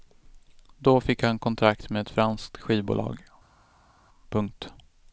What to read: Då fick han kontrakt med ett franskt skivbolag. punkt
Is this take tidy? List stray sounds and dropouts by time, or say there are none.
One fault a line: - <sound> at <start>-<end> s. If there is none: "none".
none